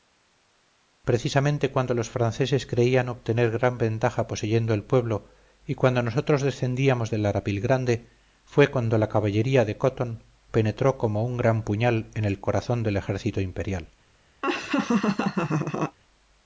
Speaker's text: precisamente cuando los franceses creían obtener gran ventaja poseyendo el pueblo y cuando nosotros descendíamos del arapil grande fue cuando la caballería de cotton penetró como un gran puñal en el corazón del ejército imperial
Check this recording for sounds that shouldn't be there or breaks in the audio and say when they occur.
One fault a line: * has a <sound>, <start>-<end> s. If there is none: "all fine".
* has a laugh, 14.4-16.0 s